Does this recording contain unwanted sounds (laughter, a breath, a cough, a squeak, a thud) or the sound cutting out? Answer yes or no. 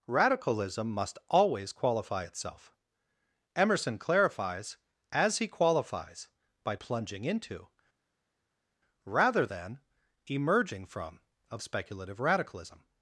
no